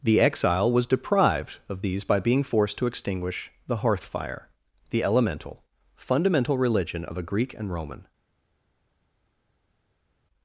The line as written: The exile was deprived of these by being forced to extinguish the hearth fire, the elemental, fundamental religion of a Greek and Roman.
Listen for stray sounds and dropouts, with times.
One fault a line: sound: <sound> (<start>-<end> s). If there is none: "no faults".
no faults